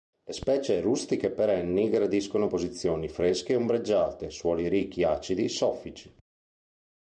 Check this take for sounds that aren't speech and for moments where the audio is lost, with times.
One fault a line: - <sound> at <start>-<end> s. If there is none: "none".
none